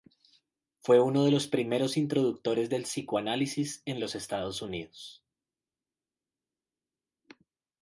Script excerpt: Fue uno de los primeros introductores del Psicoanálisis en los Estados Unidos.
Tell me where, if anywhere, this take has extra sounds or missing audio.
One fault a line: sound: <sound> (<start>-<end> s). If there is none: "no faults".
no faults